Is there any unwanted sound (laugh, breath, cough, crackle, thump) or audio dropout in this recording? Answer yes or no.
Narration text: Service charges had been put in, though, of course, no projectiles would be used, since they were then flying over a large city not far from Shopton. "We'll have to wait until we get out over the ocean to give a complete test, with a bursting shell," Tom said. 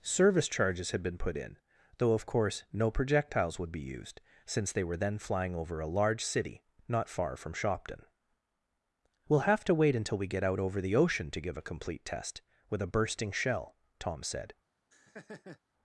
yes